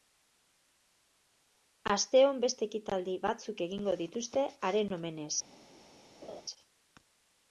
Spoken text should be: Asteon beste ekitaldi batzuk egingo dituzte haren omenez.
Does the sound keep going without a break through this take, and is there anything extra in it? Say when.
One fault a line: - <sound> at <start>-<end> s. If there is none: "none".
- laugh at 6.2-6.4 s